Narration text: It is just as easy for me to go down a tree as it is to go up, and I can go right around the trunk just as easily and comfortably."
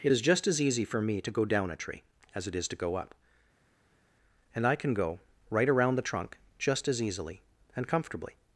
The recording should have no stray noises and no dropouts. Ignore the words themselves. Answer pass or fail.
pass